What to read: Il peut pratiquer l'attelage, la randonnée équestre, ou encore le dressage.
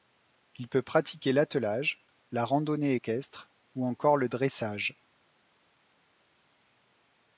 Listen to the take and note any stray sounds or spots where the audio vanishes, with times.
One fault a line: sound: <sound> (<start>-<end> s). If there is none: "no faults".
no faults